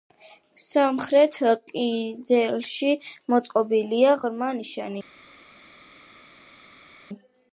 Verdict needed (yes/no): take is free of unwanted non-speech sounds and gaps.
yes